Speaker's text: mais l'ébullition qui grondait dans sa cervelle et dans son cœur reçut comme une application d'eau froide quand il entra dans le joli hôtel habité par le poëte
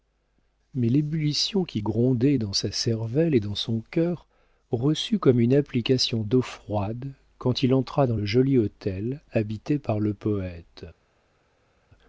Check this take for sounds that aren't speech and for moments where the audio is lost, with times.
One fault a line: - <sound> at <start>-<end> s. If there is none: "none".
none